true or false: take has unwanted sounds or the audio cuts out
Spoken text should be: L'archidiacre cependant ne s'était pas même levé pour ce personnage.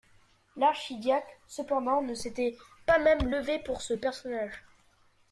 false